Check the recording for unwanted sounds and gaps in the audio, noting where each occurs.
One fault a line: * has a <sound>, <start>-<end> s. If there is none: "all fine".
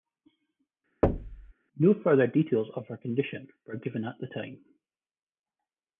* has a thud, 1.0-1.5 s